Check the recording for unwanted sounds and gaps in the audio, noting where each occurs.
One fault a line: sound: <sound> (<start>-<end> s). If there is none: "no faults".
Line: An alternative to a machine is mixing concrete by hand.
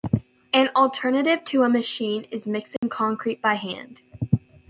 sound: dropout (2.8-2.8 s)